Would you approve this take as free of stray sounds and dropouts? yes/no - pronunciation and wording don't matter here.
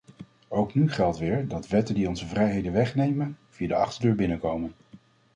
yes